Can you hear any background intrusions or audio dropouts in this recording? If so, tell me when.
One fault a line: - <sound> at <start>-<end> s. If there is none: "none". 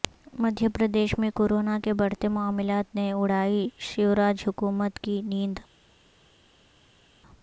none